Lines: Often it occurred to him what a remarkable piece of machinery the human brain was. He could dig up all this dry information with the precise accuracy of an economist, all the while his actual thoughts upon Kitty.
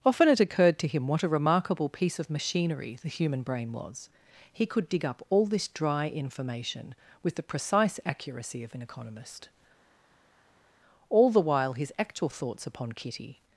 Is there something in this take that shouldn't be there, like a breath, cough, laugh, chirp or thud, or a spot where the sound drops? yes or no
no